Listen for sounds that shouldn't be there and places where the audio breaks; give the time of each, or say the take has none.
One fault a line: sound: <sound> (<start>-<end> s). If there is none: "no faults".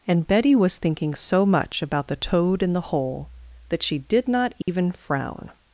sound: dropout (4.6-4.7 s)